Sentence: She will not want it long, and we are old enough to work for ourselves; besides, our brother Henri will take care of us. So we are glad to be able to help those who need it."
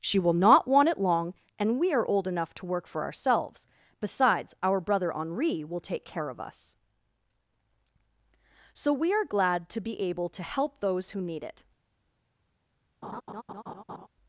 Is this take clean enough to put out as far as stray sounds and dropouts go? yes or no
no